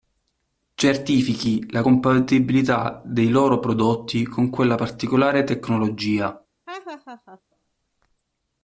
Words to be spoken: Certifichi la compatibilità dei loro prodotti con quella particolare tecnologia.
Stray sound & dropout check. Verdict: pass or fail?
fail